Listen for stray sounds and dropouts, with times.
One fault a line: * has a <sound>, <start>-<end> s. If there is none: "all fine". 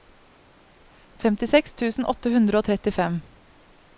all fine